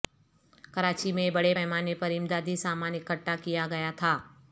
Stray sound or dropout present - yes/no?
no